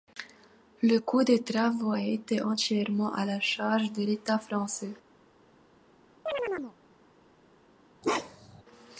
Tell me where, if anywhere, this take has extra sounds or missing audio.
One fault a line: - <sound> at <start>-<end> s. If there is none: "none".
- chirp at 6.3-6.8 s
- bark at 8.0-8.6 s